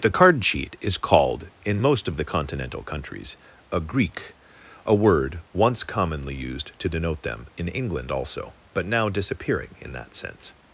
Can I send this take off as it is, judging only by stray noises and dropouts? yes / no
yes